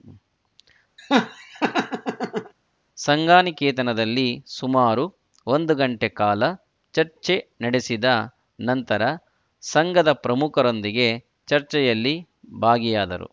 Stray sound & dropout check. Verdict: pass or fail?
fail